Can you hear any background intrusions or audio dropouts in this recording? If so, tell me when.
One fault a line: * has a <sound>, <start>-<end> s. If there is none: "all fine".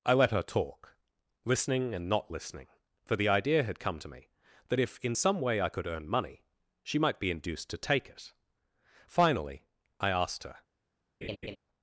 * has a laugh, 11.2-11.6 s